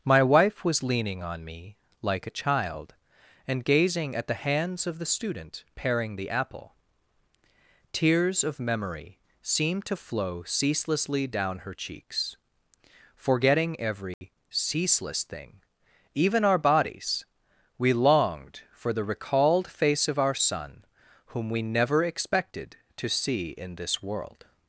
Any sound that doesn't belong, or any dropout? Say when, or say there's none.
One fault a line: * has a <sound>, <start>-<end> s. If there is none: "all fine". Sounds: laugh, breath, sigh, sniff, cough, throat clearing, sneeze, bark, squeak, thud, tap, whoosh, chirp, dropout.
* has a dropout, 14.1-14.2 s